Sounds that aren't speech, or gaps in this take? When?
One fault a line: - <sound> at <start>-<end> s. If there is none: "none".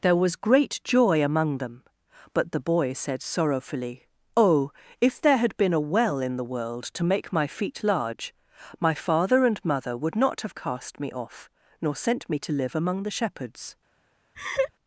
- laugh at 14.3-14.7 s